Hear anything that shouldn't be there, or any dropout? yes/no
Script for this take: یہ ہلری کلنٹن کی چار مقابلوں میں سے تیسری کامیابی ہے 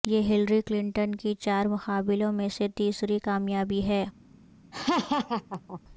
yes